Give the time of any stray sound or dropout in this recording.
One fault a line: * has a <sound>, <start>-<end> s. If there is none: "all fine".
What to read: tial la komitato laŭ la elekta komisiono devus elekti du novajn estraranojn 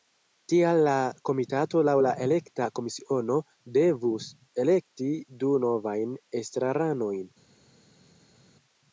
all fine